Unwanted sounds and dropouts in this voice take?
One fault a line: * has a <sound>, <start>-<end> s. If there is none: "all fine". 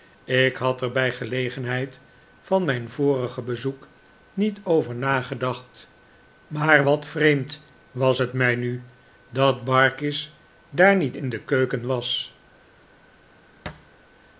* has a thud, 13.7-13.9 s